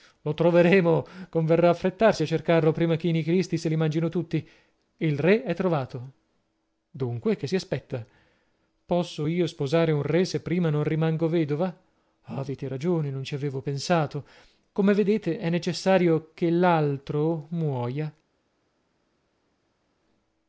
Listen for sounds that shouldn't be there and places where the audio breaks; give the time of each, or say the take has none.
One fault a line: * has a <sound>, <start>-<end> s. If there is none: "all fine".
all fine